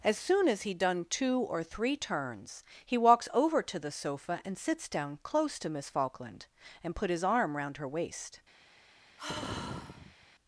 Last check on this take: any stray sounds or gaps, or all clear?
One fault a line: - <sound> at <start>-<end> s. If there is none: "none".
- sigh at 9.2-10.3 s